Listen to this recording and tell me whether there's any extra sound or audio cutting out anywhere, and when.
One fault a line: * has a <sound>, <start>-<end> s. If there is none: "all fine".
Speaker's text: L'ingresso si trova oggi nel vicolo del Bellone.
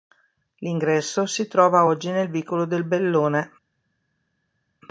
all fine